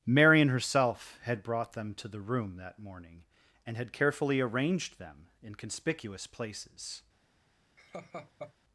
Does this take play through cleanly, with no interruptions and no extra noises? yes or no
no